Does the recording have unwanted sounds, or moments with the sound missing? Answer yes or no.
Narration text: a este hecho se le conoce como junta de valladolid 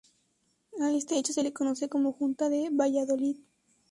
no